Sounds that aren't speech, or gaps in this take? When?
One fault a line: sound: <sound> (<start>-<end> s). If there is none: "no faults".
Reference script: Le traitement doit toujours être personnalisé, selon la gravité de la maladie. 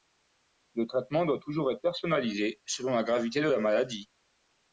no faults